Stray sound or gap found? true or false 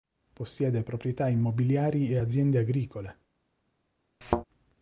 true